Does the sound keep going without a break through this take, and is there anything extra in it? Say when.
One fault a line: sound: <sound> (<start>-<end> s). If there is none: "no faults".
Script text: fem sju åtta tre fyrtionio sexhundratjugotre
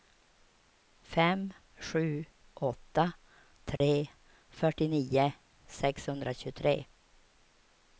sound: dropout (3.8-3.8 s)